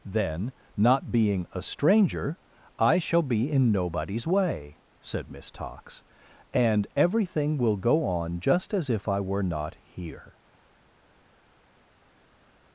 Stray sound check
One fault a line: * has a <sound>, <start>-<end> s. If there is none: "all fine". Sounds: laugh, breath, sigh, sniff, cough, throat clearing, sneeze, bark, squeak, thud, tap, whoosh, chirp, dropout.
all fine